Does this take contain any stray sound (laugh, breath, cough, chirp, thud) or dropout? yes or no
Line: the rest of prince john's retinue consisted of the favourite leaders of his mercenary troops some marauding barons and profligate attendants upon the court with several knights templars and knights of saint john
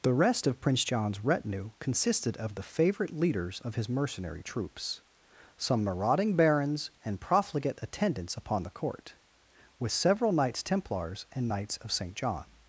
no